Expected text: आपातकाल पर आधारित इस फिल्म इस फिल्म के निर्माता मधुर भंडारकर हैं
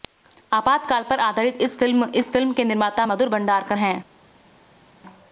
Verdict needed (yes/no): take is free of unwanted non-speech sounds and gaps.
yes